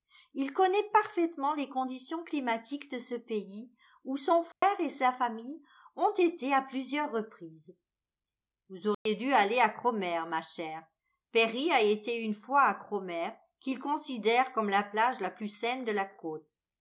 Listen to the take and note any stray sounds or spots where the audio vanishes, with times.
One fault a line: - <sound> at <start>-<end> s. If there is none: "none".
- dropout at 4.5-4.6 s
- dropout at 8.9-9.1 s